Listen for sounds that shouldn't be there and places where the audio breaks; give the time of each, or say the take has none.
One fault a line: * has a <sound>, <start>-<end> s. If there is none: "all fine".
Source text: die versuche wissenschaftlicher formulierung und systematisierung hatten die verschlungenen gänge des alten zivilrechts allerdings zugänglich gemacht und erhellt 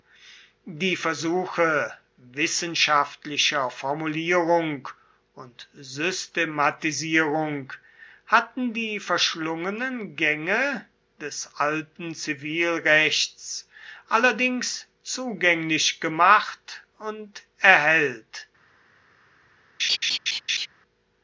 * has a laugh, 19.8-20.7 s